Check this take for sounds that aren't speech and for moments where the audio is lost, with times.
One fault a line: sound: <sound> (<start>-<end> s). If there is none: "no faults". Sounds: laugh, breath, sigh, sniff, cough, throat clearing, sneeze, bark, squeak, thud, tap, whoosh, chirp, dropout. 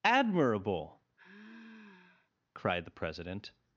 sound: sigh (1.2-2.3 s)